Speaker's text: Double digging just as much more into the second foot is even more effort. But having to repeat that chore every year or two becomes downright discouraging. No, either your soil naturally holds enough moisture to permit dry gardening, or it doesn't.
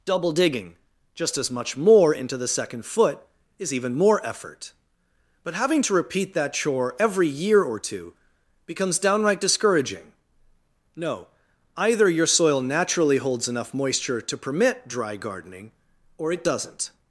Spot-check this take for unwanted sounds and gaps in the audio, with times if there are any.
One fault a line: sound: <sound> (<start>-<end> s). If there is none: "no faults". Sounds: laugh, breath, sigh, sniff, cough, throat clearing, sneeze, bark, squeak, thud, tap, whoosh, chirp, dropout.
no faults